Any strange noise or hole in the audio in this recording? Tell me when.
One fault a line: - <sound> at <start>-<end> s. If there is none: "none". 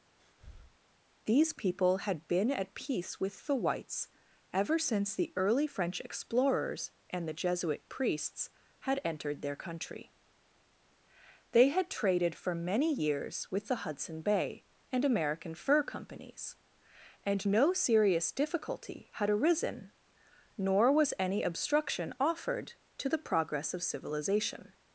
- breath at 0.2-0.8 s